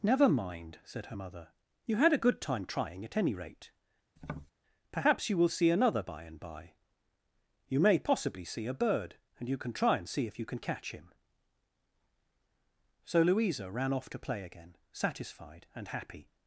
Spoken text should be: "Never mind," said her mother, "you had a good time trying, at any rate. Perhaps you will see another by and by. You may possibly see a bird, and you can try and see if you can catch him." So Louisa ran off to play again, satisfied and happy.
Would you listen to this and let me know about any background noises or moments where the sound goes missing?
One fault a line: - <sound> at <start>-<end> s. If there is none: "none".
- tap at 4.2-4.5 s